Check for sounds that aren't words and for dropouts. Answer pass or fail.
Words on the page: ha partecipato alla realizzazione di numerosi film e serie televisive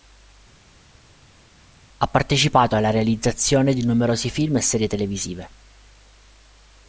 pass